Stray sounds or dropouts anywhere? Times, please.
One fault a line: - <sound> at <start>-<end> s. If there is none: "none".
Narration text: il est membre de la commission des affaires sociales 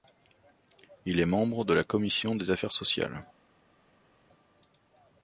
none